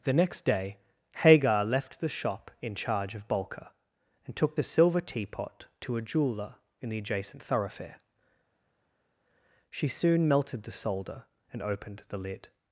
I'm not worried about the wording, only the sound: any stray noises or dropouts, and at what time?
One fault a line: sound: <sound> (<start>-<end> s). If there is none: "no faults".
no faults